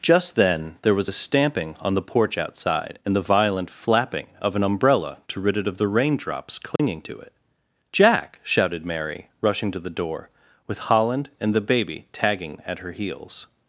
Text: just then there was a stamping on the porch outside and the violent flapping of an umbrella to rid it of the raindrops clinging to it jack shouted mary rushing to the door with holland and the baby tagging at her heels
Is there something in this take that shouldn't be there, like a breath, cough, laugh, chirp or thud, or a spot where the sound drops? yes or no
yes